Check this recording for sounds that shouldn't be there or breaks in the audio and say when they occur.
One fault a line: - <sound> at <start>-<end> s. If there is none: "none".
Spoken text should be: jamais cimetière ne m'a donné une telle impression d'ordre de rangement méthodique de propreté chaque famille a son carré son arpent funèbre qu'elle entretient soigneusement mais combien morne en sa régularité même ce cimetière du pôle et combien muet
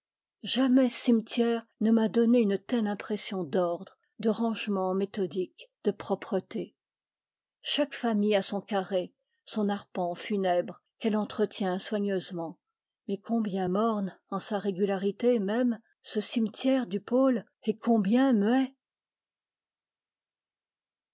none